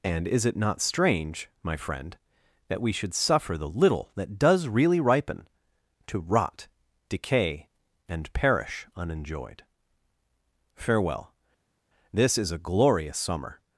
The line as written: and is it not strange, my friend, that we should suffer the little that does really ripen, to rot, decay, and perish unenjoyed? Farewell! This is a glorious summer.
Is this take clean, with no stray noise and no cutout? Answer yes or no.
yes